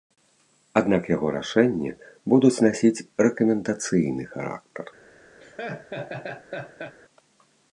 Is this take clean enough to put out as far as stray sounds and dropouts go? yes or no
no